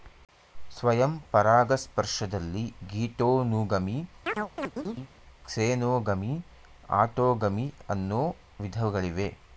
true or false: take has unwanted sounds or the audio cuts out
true